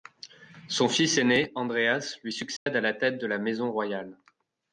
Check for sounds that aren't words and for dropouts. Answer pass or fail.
fail